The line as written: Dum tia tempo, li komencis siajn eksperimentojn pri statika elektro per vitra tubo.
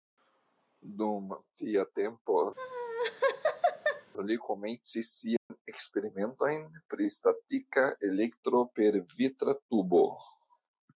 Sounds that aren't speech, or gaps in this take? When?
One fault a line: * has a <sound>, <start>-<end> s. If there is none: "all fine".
* has a laugh, 2.6-4.1 s
* has a dropout, 5.4-5.5 s